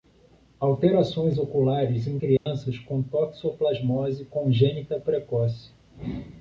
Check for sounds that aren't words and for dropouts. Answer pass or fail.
fail